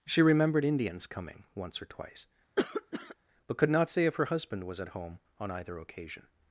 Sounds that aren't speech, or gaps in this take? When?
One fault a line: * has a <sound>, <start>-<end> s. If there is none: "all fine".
* has a cough, 2.6-3.2 s